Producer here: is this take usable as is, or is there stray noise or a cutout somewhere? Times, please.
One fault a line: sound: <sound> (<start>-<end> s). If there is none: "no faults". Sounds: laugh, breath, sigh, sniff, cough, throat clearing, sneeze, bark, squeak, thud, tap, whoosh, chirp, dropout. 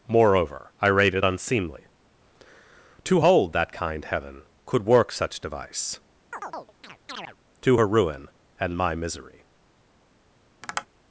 sound: chirp (6.3-7.4 s)
sound: tap (10.6-10.9 s)